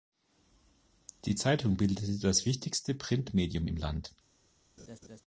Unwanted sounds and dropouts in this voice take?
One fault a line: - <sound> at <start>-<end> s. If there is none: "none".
- laugh at 4.8-5.2 s